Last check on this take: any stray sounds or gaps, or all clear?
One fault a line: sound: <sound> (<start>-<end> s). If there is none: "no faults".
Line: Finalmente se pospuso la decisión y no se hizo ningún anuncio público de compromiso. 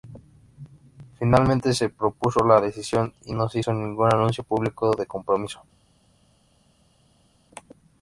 no faults